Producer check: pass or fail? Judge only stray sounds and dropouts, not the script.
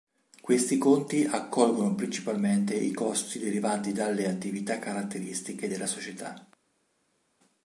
pass